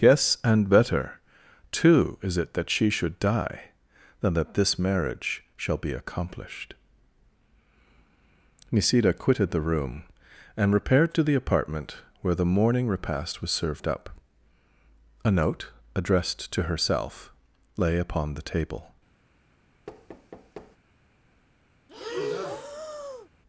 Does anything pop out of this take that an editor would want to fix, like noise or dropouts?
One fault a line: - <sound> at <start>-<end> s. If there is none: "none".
- thud at 19.9-20.8 s
- breath at 21.9-23.3 s